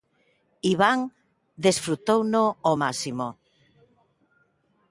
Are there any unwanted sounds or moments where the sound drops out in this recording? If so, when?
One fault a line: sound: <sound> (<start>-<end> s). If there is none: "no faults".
no faults